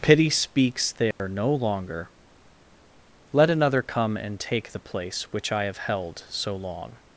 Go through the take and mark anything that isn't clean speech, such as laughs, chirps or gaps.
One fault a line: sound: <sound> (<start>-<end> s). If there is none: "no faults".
sound: dropout (1.1-1.2 s)